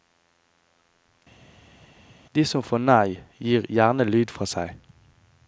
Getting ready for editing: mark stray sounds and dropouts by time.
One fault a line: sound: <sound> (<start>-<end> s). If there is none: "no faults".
no faults